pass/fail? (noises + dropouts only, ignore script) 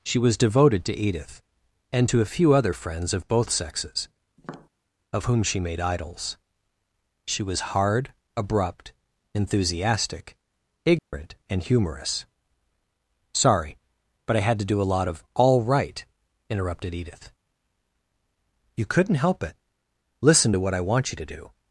fail